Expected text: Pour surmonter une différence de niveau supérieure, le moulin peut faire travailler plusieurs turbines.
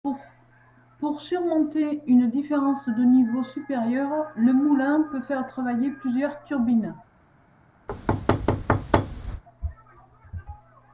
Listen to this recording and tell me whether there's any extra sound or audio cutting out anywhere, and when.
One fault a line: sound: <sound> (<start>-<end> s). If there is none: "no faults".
sound: thud (7.9-9.4 s)